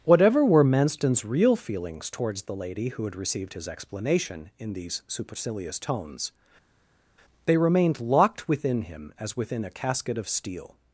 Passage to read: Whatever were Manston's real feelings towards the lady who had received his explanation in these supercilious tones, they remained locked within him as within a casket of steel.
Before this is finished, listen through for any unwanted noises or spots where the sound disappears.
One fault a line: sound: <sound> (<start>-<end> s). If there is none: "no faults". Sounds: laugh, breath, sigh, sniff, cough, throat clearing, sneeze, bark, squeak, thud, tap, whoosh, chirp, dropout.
no faults